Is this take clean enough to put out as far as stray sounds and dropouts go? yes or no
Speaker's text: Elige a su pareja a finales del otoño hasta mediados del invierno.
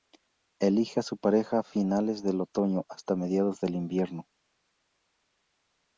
yes